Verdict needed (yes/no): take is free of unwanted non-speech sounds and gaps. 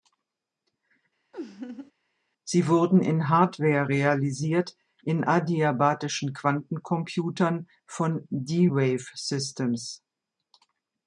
no